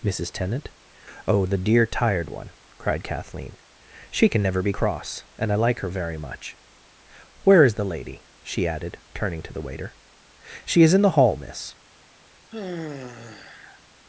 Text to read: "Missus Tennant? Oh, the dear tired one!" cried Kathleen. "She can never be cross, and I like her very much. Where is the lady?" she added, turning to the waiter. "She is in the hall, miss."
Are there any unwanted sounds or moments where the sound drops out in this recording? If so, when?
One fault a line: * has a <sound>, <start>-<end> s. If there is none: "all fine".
* has a sigh, 12.5-13.8 s